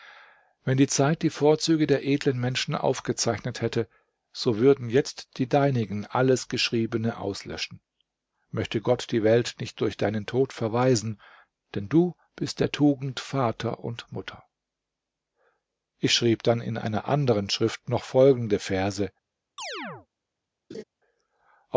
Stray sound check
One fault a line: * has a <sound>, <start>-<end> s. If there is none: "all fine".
* has a chirp, 19.6-20.1 s
* has a laugh, 20.7-20.8 s